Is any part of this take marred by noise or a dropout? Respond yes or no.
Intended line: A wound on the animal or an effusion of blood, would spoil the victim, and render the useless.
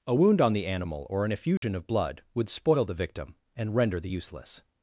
yes